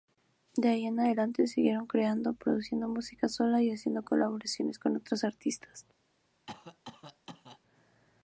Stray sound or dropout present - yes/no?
yes